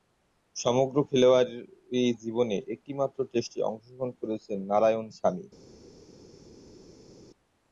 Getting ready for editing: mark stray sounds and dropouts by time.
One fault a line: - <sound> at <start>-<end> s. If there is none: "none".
none